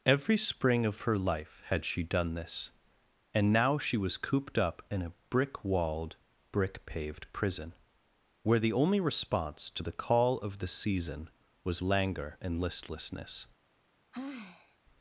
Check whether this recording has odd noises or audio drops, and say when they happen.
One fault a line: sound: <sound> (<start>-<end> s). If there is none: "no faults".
sound: sigh (14.1-14.8 s)